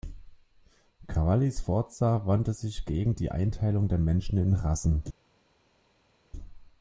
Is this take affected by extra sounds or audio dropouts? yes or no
no